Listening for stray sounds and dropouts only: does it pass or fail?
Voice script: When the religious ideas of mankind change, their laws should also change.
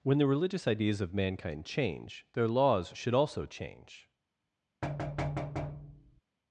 fail